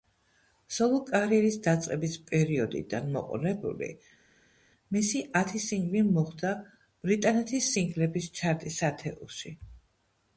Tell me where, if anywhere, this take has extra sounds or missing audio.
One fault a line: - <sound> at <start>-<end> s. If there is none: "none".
none